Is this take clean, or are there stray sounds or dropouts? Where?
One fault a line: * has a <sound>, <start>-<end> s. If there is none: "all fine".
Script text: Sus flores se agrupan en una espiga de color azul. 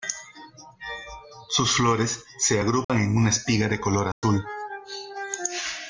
* has a dropout, 2.8-2.9 s
* has a dropout, 4.1-4.2 s